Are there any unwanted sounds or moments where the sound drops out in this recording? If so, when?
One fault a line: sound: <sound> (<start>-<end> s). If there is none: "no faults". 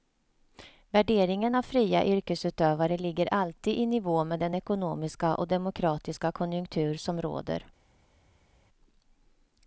no faults